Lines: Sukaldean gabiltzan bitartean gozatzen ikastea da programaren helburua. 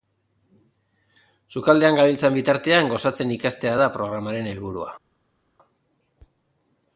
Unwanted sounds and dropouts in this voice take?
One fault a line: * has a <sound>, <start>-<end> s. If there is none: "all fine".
all fine